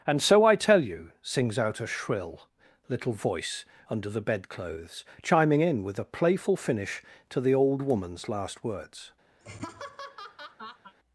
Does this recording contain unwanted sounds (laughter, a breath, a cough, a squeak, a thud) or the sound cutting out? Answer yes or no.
yes